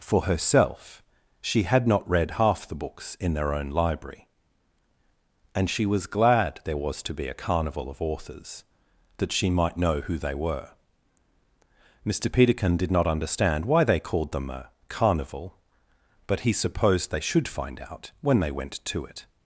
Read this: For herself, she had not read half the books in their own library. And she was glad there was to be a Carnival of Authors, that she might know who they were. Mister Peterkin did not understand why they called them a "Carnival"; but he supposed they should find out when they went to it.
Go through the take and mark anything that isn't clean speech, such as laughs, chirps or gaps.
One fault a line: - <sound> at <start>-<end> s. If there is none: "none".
none